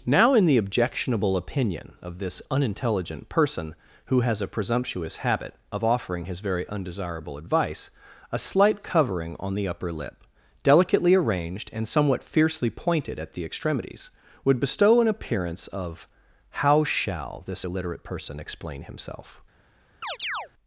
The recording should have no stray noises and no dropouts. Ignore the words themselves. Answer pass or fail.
fail